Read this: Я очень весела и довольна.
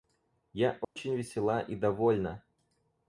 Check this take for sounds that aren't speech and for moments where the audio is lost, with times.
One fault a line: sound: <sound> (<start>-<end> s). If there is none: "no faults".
sound: dropout (0.8-1.0 s)